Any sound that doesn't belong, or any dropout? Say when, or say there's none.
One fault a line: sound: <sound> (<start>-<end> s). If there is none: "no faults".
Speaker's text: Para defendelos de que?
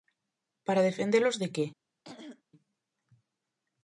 sound: throat clearing (2.0-2.4 s)